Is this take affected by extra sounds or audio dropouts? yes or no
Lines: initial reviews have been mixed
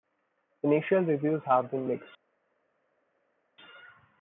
no